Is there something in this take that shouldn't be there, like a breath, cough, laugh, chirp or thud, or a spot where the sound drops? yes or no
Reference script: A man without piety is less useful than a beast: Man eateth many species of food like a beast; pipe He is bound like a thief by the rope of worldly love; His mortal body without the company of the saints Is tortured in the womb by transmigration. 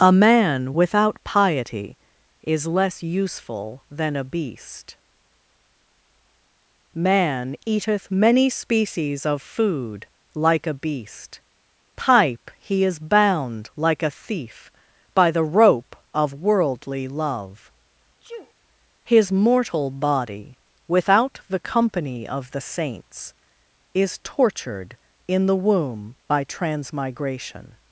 yes